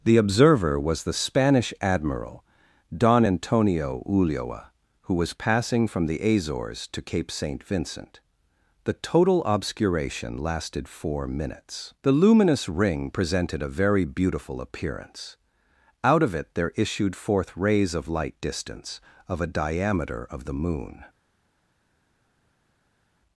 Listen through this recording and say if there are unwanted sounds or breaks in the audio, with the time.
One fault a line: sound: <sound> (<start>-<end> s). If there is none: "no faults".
no faults